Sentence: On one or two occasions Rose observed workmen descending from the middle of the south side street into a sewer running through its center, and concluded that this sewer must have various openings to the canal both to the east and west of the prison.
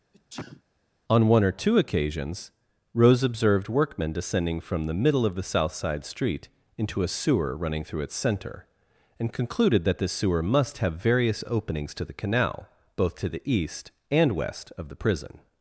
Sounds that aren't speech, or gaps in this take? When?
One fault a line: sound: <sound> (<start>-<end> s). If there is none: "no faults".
sound: sneeze (0.1-0.6 s)